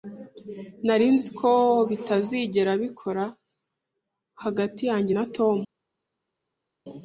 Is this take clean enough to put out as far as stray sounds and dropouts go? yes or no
yes